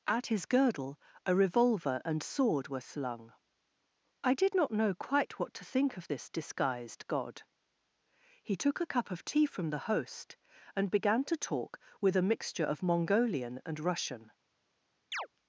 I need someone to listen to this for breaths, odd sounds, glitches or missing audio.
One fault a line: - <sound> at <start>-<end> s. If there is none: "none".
- chirp at 15.1-15.3 s